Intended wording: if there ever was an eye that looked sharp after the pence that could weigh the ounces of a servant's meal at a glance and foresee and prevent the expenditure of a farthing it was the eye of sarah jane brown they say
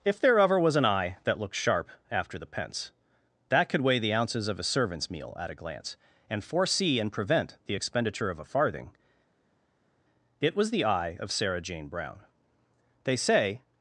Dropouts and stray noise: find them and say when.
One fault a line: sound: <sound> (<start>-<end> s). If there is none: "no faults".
no faults